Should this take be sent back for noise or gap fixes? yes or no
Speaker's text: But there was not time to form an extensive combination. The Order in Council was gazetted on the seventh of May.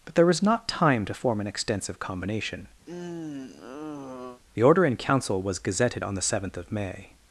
yes